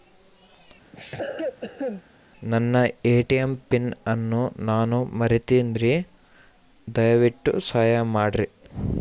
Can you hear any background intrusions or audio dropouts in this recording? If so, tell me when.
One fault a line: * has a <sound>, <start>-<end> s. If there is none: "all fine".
* has a cough, 0.9-2.0 s